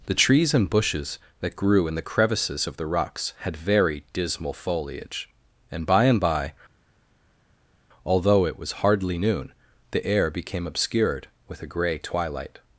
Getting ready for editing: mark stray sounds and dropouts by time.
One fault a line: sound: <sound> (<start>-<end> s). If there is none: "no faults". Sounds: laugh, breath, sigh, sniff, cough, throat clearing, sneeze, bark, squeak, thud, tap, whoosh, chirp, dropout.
no faults